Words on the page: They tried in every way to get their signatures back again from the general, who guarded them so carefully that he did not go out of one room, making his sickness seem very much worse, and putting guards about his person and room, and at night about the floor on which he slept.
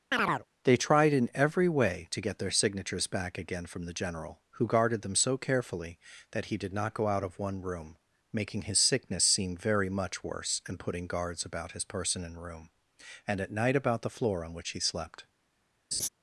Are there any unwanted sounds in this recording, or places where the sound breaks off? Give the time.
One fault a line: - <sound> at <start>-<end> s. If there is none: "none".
- chirp at 0.1-0.4 s
- laugh at 15.9-16.1 s